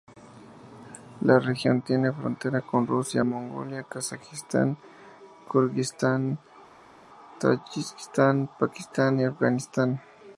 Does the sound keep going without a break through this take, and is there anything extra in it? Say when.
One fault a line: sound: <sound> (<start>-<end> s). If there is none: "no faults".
no faults